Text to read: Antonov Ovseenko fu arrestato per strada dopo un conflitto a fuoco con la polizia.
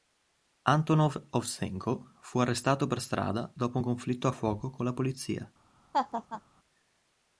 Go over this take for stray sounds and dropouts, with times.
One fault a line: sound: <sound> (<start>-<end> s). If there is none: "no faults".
sound: laugh (5.9-6.4 s)